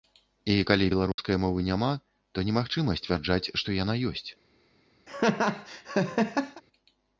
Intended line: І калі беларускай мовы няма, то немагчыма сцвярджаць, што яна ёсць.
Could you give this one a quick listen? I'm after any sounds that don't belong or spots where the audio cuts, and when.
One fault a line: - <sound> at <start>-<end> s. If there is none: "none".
- dropout at 1.1-1.2 s
- laugh at 5.1-6.6 s